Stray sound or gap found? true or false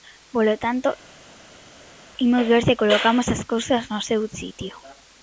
false